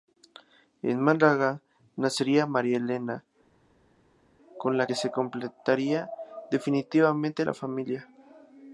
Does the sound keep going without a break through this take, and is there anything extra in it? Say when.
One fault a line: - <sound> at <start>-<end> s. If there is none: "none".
none